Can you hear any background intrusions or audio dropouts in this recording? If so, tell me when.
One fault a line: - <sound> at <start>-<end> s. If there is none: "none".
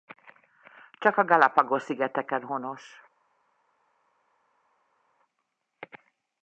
none